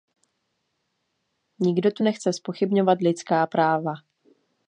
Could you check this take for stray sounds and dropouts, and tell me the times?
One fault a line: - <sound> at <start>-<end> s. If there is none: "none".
none